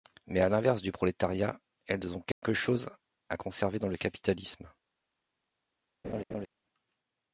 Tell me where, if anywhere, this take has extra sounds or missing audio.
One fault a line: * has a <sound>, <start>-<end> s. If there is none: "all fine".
* has a dropout, 2.3-2.4 s
* has a laugh, 6.0-6.5 s